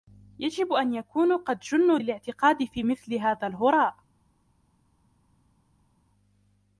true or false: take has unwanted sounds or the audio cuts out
false